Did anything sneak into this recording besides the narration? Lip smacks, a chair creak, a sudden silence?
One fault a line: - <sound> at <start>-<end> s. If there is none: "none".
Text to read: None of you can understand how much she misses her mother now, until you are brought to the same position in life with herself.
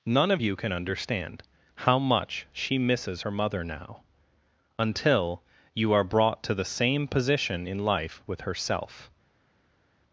none